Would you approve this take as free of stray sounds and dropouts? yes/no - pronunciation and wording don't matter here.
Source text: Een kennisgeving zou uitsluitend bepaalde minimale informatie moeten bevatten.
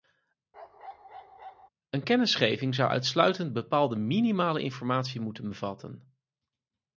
no